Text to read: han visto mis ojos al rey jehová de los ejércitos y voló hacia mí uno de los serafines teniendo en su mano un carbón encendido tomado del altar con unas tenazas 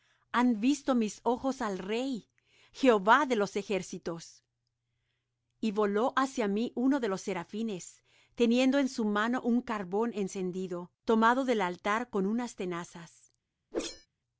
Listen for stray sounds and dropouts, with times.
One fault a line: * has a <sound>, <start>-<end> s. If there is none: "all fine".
* has a whoosh, 13.7-14.1 s